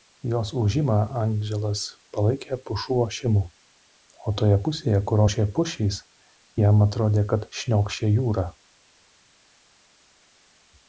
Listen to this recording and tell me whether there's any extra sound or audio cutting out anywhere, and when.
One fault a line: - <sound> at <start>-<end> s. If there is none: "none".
none